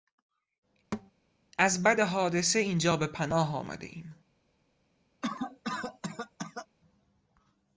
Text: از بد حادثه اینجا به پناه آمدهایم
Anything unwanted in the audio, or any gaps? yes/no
yes